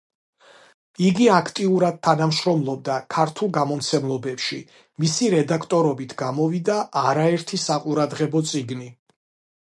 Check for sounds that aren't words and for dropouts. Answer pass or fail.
pass